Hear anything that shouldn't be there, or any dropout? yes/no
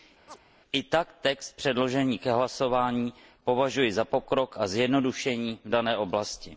yes